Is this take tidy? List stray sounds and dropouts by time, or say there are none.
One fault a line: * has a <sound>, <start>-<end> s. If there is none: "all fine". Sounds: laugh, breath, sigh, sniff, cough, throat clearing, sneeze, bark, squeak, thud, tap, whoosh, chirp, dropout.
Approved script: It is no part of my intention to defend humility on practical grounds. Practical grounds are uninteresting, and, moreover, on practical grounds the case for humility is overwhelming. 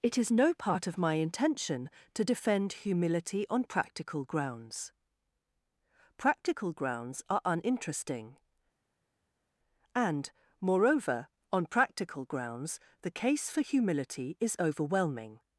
all fine